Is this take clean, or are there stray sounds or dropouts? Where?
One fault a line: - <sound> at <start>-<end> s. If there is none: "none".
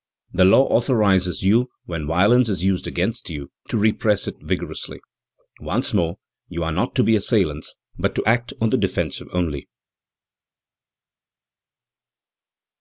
none